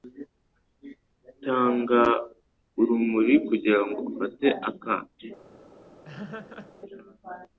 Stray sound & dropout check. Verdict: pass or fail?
fail